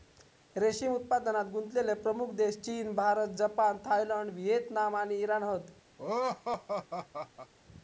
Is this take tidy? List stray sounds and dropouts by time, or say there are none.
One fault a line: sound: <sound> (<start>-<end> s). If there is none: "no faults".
sound: laugh (6.0-7.5 s)